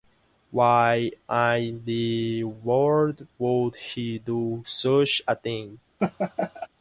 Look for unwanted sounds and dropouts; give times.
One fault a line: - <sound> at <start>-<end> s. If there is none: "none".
- laugh at 6.0-6.7 s